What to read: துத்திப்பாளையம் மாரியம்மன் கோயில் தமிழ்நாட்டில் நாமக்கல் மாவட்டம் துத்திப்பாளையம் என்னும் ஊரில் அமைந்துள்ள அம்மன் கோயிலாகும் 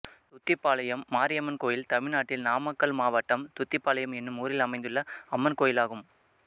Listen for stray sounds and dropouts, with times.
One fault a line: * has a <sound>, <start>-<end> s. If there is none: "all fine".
all fine